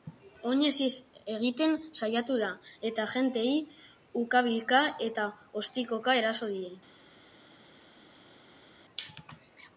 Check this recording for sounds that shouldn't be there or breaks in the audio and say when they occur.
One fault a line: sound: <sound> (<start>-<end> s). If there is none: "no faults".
no faults